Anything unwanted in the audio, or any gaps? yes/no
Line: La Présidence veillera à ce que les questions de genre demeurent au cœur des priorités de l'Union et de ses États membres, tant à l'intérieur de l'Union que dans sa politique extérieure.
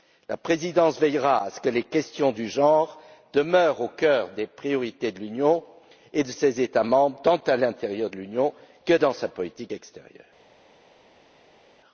no